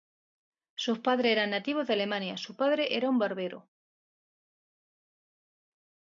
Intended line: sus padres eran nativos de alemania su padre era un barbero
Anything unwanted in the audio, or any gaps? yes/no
no